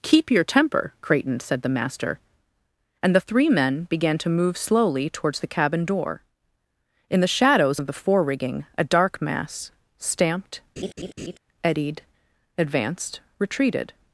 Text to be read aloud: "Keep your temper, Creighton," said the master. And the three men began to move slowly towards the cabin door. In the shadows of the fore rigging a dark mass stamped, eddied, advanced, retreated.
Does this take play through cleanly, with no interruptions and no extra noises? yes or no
no